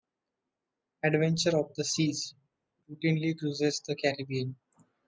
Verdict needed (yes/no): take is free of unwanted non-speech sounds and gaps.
yes